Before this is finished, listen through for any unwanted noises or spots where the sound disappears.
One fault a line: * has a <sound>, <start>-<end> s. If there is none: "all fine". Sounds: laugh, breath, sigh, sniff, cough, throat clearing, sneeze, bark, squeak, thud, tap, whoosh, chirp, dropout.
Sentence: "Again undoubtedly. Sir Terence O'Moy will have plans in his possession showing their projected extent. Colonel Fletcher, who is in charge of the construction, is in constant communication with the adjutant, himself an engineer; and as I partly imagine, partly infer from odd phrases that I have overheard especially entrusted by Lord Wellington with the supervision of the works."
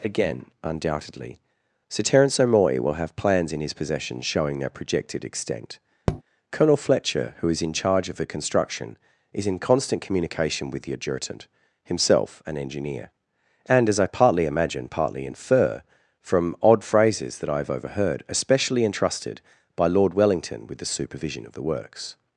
* has a tap, 6.1-6.2 s